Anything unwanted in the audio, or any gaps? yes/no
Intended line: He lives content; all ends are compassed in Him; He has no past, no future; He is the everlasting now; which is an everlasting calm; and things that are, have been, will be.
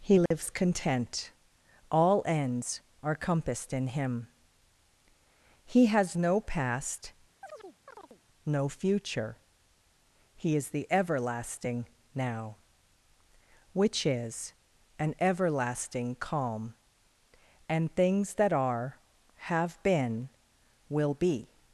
yes